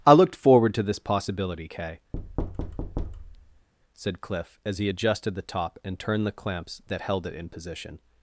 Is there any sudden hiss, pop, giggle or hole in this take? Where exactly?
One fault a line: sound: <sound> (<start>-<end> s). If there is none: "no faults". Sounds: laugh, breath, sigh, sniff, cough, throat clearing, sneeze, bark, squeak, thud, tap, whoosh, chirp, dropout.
sound: thud (2.1-3.7 s)